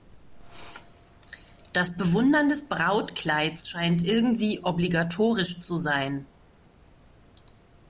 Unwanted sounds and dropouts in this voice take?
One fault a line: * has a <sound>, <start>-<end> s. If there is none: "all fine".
all fine